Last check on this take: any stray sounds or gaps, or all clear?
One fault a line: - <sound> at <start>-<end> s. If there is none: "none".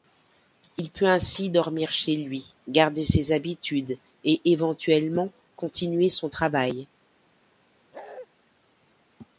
- bark at 7.9-8.3 s